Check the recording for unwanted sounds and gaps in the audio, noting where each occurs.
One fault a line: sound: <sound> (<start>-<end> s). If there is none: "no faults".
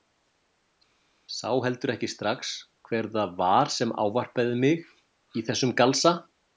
no faults